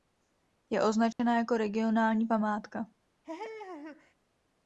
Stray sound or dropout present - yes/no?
yes